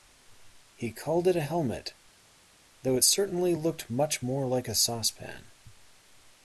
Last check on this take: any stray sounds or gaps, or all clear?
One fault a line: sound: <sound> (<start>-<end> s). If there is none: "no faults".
no faults